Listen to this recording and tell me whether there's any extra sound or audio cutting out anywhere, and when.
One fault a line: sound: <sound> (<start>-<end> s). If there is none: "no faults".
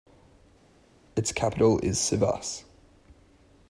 no faults